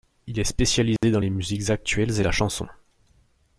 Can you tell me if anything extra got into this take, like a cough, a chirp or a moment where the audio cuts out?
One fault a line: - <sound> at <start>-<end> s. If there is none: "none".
- dropout at 1.0-1.0 s